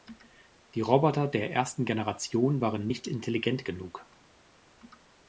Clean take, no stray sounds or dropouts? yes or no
yes